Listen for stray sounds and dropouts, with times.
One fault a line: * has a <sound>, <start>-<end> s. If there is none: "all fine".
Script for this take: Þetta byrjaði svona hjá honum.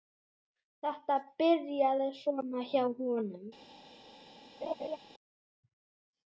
* has a laugh, 4.6-5.0 s